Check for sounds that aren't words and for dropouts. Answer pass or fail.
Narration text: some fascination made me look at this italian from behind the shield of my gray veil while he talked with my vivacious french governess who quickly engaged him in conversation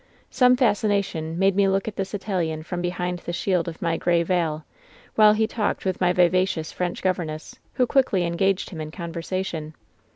pass